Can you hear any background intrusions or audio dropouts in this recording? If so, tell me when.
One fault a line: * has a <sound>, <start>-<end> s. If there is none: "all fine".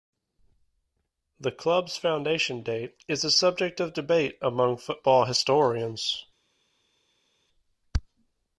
all fine